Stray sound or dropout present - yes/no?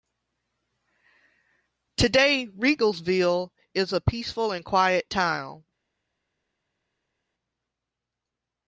no